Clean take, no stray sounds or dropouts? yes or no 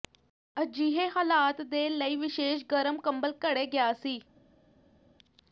yes